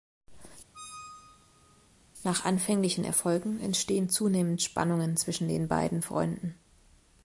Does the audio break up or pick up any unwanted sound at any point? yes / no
yes